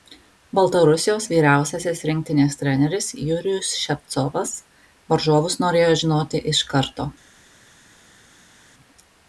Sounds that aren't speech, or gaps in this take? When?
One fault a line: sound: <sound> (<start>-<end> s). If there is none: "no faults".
no faults